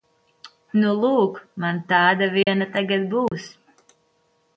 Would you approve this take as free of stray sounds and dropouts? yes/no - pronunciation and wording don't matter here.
no